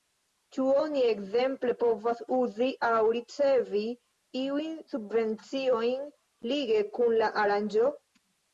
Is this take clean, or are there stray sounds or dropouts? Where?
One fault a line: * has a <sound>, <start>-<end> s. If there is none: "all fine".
all fine